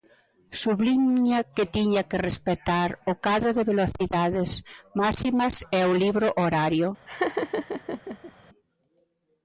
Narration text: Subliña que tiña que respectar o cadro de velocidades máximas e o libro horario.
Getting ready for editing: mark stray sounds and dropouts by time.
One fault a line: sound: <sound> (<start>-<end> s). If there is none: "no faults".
sound: laugh (7.1-8.3 s)